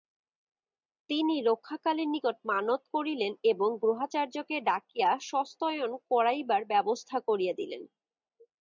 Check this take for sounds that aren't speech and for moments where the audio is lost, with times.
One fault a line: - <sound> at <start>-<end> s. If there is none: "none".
none